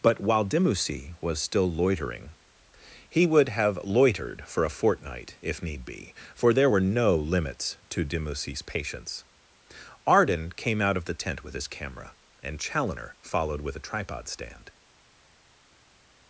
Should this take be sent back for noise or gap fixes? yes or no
no